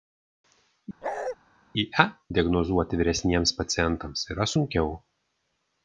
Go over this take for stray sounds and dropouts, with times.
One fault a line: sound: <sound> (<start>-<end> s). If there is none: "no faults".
sound: bark (1.0-1.4 s)